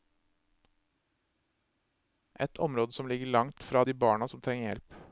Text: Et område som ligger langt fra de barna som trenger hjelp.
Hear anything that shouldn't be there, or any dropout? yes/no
no